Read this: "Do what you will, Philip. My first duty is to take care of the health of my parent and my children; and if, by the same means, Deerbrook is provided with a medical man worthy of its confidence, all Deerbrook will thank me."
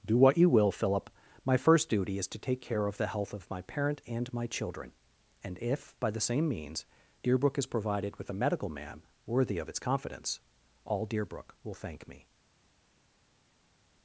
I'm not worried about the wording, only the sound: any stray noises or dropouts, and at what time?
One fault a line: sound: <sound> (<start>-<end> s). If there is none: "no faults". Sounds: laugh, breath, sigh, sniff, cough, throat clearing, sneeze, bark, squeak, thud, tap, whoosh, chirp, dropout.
no faults